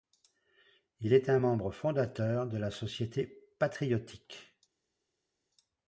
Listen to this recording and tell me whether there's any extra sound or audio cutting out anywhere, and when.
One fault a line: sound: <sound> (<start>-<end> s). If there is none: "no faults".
no faults